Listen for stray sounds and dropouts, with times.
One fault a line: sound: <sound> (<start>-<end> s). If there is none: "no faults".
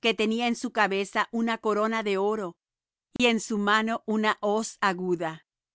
sound: dropout (3.2-3.2 s)